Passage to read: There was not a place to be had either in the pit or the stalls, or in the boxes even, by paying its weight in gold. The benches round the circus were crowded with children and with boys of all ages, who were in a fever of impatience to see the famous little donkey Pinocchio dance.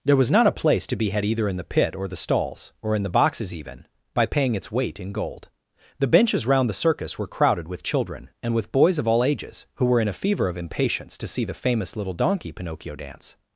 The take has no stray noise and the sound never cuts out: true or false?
true